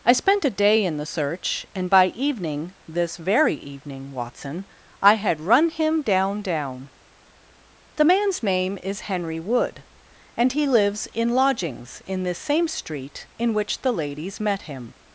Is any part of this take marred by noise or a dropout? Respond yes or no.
no